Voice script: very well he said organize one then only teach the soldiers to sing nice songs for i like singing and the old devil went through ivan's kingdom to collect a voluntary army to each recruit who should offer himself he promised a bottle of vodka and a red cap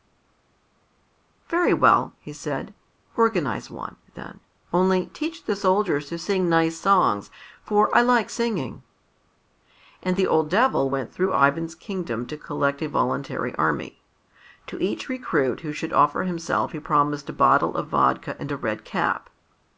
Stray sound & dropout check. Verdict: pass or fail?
pass